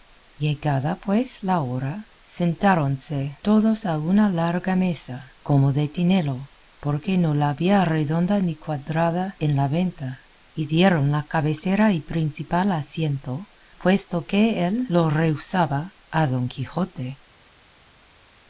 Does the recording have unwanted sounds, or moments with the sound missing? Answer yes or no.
no